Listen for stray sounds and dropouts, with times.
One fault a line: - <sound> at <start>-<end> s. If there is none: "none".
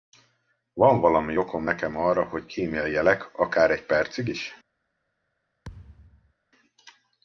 - thud at 5.6-6.3 s